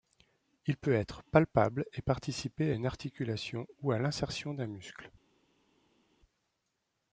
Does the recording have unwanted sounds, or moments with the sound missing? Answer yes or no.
no